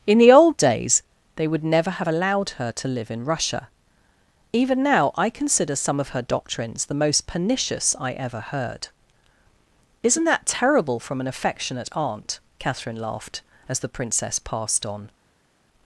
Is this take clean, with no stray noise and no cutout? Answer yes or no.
yes